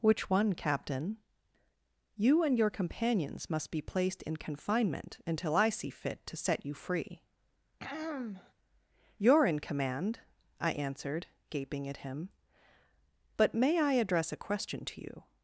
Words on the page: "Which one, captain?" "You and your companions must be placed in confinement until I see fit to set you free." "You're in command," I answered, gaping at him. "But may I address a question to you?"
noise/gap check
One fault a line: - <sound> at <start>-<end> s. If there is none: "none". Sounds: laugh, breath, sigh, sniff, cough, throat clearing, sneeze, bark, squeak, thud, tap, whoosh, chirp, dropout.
- throat clearing at 7.8-8.5 s